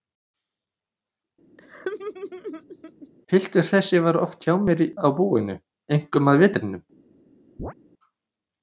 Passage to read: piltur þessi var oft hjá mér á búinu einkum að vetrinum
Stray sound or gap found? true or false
true